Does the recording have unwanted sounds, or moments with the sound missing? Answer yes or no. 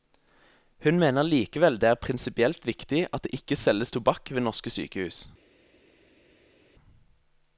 no